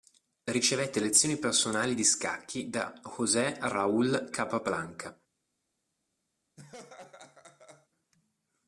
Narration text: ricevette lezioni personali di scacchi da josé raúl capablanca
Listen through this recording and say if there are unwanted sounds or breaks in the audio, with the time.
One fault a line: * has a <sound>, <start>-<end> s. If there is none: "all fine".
* has a laugh, 6.6-7.9 s